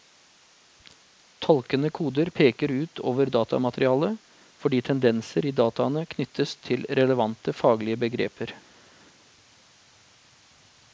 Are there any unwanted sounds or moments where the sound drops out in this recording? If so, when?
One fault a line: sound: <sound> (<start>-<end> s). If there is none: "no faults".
no faults